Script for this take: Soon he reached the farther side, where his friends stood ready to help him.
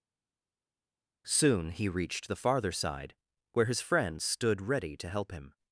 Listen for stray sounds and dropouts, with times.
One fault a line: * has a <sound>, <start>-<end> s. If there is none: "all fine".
all fine